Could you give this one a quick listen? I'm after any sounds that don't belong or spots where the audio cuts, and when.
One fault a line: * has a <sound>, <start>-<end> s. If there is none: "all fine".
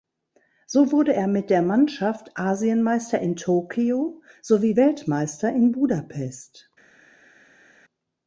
all fine